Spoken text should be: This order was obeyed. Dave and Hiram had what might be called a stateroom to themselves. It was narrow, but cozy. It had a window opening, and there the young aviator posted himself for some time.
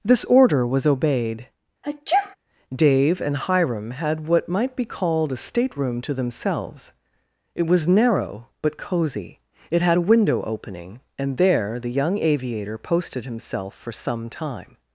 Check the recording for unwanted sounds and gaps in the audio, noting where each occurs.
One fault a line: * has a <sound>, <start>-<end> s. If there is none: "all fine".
* has a sneeze, 1.8-2.4 s